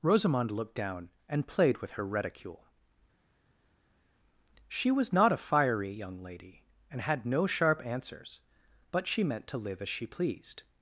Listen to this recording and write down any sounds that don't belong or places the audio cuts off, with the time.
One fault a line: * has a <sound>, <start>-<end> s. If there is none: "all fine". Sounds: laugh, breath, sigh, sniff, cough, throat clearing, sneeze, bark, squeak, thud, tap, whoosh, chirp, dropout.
all fine